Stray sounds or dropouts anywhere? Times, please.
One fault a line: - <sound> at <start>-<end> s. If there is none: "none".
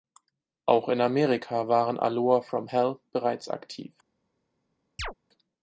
- chirp at 5.0-5.1 s